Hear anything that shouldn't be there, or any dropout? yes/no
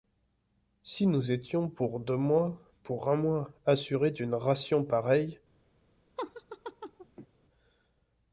yes